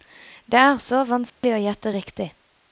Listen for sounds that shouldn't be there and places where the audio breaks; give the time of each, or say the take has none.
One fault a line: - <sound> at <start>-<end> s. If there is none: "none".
- dropout at 1.3-1.4 s